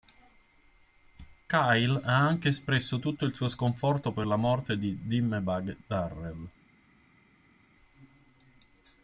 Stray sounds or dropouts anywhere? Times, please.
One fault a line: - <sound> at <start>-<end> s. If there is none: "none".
none